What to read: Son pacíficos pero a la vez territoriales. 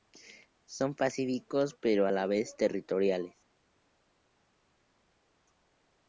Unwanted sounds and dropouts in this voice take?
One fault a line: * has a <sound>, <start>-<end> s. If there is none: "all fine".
all fine